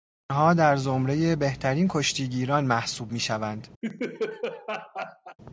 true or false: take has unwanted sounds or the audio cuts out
true